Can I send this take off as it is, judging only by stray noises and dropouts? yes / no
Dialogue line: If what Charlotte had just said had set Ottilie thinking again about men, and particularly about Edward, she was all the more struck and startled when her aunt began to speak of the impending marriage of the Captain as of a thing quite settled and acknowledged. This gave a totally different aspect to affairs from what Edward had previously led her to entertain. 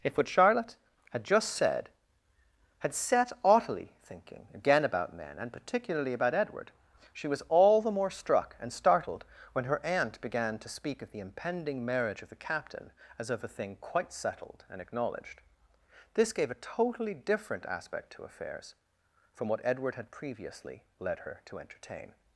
yes